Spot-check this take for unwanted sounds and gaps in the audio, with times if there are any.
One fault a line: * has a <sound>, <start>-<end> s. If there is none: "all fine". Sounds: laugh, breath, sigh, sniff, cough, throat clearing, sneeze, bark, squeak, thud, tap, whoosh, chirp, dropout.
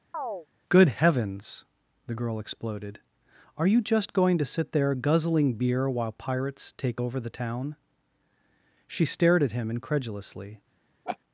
* has a chirp, 0.1-0.5 s
* has a laugh, 11.1-11.2 s